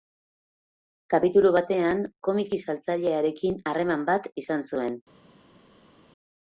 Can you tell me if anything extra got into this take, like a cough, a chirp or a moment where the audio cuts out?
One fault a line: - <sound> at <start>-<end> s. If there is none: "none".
none